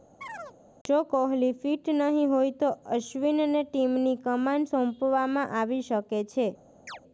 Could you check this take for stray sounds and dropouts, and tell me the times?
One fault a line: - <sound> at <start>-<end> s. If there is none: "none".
- chirp at 0.2-0.6 s
- chirp at 6.9-7.0 s